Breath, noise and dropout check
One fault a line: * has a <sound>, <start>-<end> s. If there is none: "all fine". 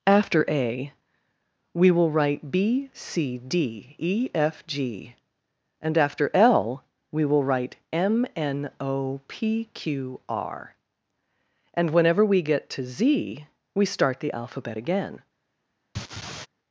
* has a laugh, 15.9-16.5 s